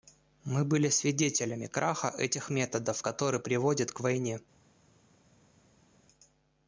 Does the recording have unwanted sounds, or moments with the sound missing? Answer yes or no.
no